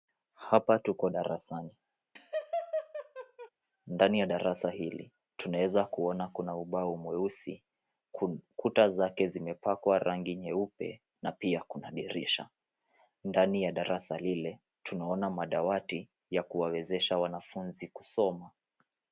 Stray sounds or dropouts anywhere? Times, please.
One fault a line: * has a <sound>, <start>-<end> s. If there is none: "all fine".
* has a laugh, 2.2-3.5 s